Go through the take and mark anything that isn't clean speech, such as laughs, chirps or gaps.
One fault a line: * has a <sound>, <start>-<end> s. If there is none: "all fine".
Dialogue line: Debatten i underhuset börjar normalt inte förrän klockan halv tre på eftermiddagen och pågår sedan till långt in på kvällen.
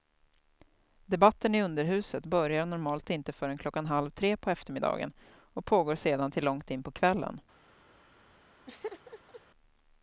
* has a laugh, 8.7-9.4 s